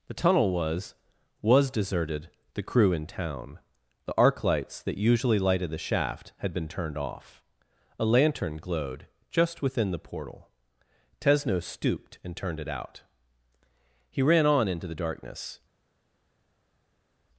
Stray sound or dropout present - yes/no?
no